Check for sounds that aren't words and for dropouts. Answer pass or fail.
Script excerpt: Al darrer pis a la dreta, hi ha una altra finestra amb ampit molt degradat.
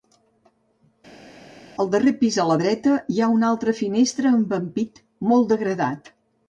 pass